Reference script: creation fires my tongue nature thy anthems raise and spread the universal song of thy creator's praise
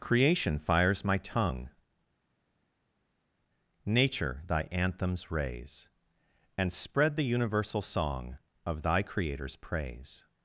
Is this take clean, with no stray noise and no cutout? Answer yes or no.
yes